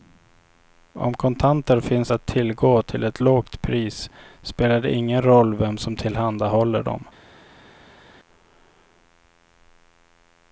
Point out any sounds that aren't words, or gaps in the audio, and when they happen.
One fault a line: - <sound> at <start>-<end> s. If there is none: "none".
none